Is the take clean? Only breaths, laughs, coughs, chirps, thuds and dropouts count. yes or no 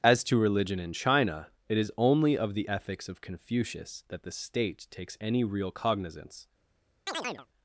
no